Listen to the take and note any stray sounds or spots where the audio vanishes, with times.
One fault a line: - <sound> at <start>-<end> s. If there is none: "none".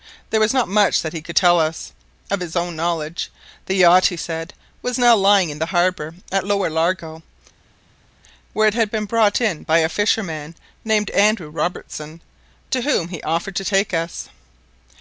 none